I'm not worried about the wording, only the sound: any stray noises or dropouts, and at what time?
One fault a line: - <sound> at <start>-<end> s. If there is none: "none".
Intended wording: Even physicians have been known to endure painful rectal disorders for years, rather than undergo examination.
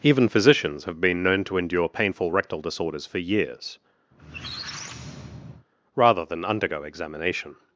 - squeak at 4.1-5.7 s